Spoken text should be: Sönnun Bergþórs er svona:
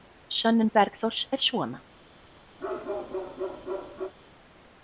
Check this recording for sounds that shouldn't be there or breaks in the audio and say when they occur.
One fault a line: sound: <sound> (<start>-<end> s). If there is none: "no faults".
sound: bark (2.6-4.1 s)